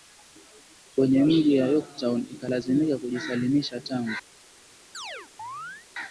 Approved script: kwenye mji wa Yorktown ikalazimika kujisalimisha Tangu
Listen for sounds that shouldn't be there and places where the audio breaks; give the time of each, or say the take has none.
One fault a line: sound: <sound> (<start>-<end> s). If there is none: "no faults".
sound: chirp (4.9-5.9 s)